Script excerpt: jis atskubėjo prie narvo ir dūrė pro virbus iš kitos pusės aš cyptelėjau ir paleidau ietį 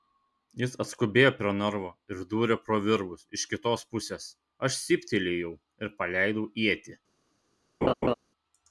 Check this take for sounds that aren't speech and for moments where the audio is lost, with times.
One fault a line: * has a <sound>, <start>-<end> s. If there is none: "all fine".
* has a laugh, 7.8-8.1 s